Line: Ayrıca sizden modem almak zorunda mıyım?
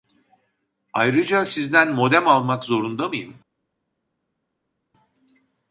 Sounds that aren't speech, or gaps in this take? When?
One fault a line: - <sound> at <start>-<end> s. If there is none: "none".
none